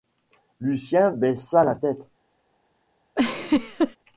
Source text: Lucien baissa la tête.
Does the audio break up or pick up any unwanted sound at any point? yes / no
yes